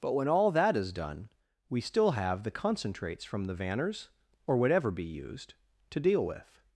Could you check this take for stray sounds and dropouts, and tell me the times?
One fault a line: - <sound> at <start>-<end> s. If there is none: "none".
none